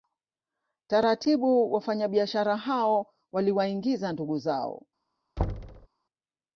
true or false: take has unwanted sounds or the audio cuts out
true